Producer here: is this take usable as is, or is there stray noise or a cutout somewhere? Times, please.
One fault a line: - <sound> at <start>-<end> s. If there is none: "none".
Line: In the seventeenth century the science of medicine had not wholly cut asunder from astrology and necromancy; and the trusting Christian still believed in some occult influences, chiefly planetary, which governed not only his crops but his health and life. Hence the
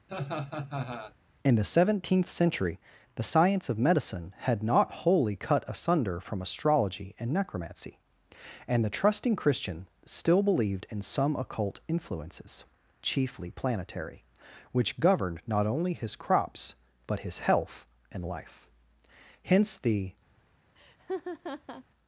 - laugh at 0.1-1.1 s
- laugh at 20.8-21.8 s